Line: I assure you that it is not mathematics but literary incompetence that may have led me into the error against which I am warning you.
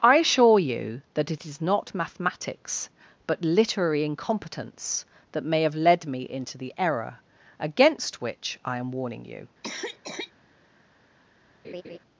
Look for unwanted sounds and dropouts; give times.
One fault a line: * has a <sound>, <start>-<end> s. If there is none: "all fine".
* has a cough, 9.6-10.3 s
* has a laugh, 11.6-12.0 s